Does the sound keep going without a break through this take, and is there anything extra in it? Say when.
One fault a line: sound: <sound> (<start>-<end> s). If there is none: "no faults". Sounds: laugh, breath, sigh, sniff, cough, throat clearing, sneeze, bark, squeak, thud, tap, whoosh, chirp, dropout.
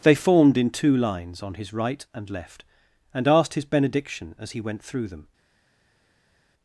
no faults